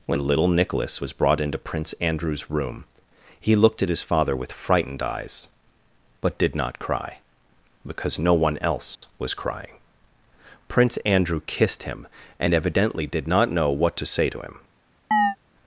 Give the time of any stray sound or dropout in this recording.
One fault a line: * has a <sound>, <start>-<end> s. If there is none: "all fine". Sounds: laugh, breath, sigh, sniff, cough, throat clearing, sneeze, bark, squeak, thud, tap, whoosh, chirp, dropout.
* has a dropout, 9.0-9.0 s
* has a chirp, 15.1-15.4 s